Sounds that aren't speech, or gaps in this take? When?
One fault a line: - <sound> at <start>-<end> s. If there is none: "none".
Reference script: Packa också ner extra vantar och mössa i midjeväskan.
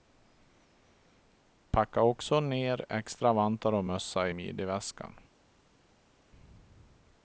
none